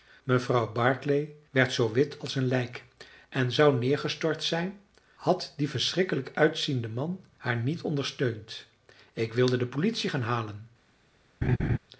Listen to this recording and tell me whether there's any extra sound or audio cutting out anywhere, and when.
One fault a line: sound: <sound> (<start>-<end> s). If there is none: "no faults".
sound: laugh (11.4-11.8 s)